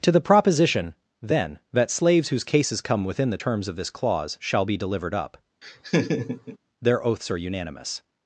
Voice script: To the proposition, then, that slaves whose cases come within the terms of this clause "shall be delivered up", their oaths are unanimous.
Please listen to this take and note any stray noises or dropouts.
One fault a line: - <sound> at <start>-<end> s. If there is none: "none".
- laugh at 5.6-6.6 s